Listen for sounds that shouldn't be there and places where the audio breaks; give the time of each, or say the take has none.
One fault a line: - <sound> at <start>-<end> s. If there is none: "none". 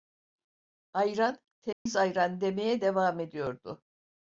- dropout at 1.7-1.9 s